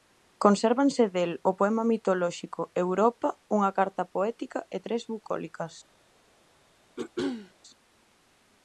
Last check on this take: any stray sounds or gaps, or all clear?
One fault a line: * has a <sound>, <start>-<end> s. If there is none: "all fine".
* has a throat clearing, 7.0-7.5 s